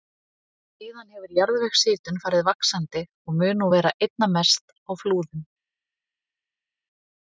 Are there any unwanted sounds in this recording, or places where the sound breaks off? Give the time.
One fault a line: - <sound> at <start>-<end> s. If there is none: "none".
none